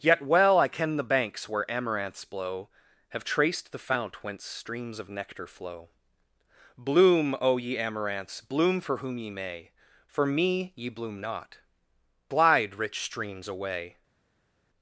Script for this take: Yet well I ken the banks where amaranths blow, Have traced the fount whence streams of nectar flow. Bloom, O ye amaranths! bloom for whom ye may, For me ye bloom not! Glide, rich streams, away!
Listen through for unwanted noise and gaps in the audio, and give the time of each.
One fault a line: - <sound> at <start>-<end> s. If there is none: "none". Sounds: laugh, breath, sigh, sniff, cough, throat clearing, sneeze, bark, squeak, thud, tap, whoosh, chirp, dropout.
none